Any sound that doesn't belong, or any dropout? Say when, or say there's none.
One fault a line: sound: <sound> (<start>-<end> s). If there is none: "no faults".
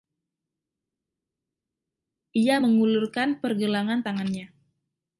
no faults